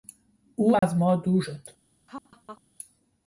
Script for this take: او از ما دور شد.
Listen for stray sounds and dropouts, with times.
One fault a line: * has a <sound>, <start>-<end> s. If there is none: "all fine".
* has a dropout, 0.8-0.8 s
* has a laugh, 2.1-2.6 s